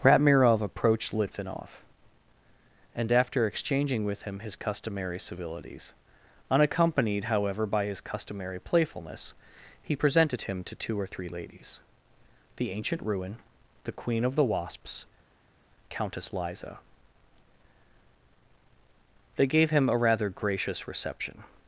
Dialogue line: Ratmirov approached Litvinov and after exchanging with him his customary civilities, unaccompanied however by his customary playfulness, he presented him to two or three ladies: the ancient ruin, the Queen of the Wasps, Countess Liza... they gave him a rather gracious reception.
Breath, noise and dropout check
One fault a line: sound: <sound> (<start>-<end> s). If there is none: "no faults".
no faults